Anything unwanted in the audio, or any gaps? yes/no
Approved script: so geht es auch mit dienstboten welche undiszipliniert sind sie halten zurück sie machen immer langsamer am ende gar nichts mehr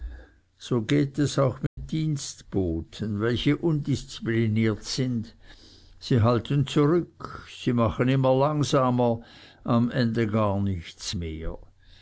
yes